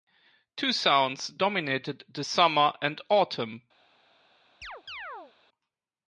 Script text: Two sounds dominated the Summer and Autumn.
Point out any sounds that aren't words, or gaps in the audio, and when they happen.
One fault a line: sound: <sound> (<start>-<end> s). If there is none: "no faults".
sound: chirp (4.6-5.3 s)